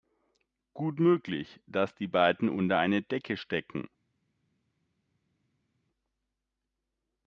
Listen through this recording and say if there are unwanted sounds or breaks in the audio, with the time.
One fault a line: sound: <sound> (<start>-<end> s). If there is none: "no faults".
no faults